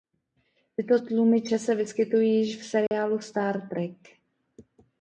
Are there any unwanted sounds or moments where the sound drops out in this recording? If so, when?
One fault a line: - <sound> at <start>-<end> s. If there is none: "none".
- dropout at 2.9-2.9 s